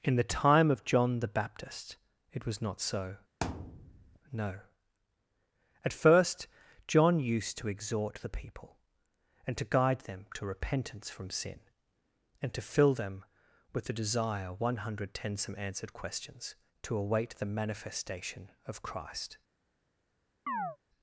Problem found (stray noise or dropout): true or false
true